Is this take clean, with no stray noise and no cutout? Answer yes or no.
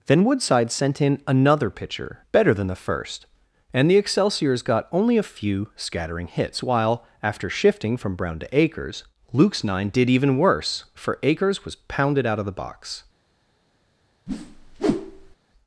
no